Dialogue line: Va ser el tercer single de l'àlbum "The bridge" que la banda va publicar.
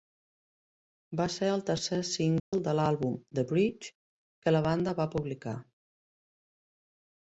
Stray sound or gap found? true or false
true